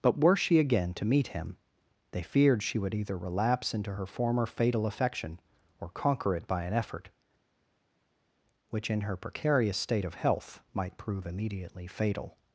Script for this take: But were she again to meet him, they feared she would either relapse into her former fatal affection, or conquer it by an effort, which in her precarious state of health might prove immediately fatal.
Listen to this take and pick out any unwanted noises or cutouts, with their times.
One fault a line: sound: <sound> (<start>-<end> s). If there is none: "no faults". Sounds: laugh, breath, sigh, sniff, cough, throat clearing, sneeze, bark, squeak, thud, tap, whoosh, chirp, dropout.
no faults